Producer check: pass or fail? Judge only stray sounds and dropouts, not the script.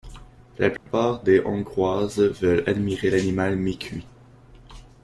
fail